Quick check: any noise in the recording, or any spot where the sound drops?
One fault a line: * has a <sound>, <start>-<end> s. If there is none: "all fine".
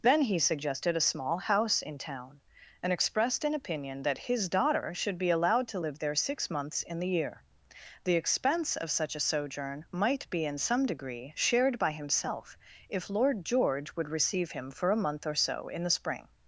all fine